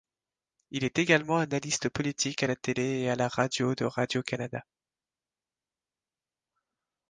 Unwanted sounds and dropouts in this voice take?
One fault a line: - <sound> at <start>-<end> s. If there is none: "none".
none